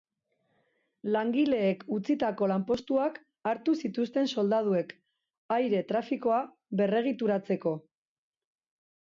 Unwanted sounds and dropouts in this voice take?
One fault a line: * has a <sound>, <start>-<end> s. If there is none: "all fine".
all fine